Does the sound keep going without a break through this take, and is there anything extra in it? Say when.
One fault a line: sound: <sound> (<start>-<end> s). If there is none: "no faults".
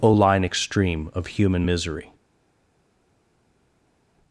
no faults